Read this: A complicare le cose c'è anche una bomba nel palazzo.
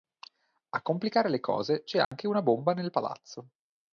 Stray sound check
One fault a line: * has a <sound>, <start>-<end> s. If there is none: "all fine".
* has a dropout, 2.0-2.1 s